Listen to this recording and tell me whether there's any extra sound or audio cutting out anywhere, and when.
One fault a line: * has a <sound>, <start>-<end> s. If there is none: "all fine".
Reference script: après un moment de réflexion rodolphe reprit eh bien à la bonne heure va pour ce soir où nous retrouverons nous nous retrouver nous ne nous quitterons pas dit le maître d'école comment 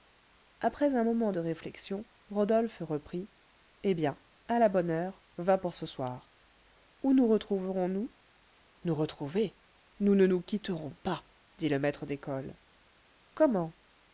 all fine